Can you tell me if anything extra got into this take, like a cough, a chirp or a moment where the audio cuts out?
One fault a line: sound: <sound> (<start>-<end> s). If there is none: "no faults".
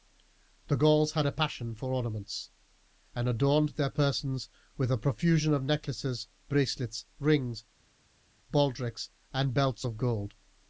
no faults